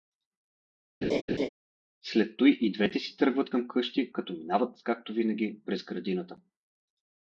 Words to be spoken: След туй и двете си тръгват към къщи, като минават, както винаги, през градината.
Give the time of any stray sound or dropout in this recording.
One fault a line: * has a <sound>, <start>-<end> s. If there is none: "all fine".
* has a laugh, 1.0-1.5 s